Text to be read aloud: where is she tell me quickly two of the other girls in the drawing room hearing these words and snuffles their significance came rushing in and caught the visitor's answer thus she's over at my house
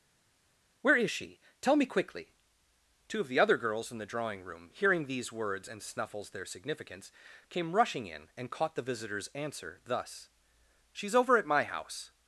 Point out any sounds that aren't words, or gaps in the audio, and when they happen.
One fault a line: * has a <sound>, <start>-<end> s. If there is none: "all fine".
all fine